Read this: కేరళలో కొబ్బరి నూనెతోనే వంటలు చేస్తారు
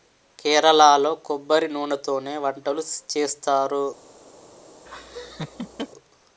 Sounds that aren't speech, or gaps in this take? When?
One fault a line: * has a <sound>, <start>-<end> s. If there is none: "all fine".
* has a laugh, 4.9-5.9 s